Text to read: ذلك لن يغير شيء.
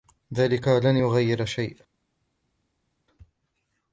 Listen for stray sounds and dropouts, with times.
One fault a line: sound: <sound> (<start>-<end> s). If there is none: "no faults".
no faults